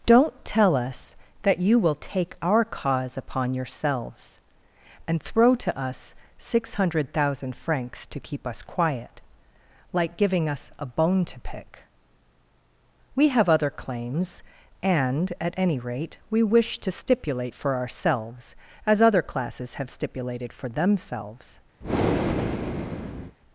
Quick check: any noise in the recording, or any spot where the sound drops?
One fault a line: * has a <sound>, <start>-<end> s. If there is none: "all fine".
* has a breath, 21.8-23.4 s